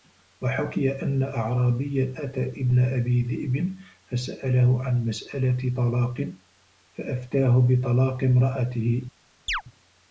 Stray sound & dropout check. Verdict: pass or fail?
fail